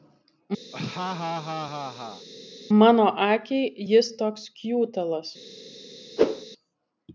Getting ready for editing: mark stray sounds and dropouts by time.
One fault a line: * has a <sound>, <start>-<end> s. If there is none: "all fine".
* has a laugh, 0.7-2.3 s
* has a whoosh, 6.2-6.5 s